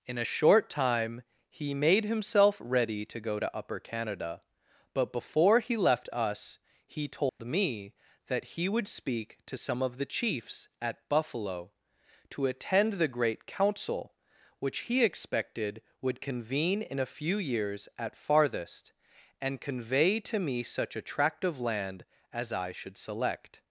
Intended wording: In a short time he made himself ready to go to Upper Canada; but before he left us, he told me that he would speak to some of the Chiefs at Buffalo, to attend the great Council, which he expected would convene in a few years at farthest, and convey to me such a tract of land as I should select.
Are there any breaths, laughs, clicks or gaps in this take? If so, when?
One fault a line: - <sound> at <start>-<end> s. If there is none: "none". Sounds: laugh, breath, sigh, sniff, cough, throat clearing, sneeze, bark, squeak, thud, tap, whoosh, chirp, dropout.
- dropout at 7.3-7.4 s